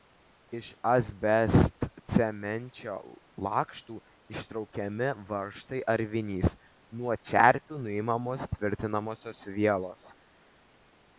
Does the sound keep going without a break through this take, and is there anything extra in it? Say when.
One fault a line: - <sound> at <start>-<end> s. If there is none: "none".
none